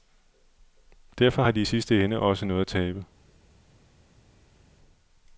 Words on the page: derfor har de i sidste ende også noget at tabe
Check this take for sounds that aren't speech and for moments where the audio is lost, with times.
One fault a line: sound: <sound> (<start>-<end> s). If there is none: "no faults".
no faults